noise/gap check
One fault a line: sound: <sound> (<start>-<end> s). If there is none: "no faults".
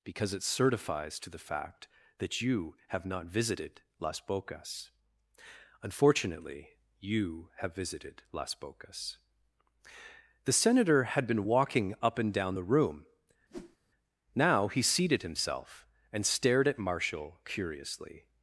sound: whoosh (13.5-13.8 s)